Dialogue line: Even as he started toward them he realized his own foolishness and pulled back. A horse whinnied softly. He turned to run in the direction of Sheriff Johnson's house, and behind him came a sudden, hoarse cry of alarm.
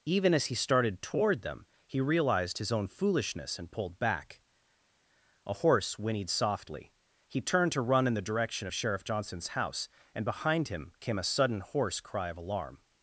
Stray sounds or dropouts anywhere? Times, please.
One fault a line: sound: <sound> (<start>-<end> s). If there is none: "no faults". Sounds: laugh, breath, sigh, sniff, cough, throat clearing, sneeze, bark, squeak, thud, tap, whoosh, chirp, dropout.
no faults